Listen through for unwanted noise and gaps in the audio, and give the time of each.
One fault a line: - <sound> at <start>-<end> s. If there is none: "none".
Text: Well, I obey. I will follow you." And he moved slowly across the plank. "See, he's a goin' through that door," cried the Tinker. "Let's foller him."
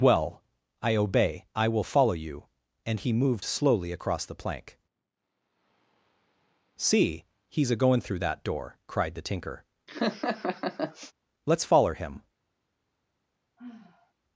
- laugh at 9.9-11.1 s
- sigh at 13.6-14.1 s